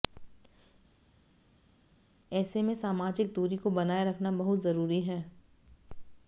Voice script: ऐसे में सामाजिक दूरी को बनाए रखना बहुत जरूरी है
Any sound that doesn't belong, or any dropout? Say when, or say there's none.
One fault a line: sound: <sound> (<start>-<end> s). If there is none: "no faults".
no faults